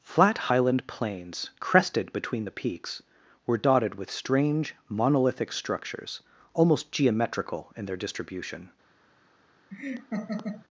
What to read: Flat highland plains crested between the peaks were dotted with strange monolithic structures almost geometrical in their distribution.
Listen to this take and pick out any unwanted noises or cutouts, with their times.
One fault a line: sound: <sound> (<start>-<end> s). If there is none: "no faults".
sound: laugh (9.7-10.7 s)